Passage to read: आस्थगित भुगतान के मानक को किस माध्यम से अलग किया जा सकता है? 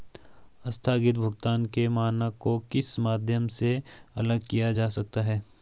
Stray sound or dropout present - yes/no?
no